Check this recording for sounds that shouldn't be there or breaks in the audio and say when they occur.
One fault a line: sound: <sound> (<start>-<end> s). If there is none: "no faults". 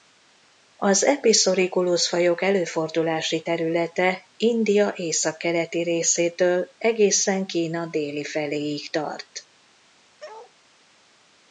sound: bark (10.2-10.5 s)